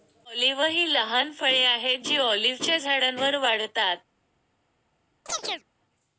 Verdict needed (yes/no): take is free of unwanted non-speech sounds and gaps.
no